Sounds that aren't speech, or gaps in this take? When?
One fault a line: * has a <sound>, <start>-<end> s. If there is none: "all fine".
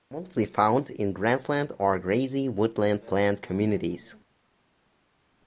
all fine